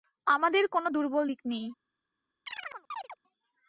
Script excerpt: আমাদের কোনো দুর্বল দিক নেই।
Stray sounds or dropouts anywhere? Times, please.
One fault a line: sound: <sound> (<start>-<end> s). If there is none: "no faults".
sound: chirp (2.5-3.2 s)